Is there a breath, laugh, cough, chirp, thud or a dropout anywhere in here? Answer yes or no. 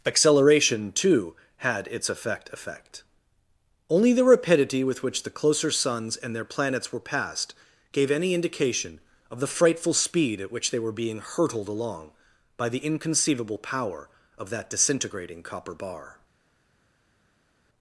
no